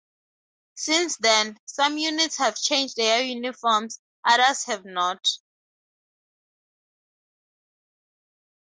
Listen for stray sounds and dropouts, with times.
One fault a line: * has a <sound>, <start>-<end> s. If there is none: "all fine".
all fine